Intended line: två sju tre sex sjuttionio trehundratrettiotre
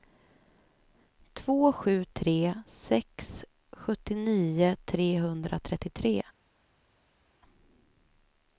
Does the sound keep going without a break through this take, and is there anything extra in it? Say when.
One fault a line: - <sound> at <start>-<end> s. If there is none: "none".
none